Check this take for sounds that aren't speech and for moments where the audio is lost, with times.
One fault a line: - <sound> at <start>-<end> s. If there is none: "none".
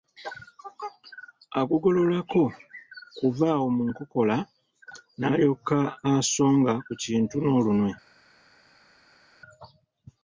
none